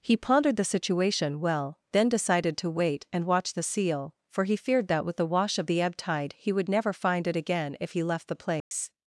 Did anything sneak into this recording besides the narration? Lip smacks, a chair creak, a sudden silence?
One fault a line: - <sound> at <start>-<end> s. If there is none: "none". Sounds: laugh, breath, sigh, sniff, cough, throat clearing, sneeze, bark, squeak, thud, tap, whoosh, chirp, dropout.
- dropout at 8.6-8.7 s